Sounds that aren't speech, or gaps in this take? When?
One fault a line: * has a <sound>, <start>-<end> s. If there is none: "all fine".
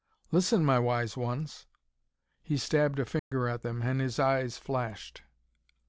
* has a dropout, 3.2-3.3 s